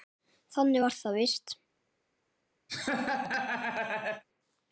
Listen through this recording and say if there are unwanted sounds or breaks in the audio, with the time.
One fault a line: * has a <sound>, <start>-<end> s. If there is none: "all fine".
* has a laugh, 2.7-4.2 s